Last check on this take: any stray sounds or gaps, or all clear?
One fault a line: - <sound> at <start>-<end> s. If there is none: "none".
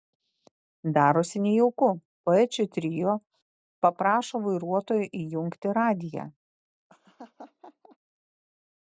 - laugh at 6.9-8.0 s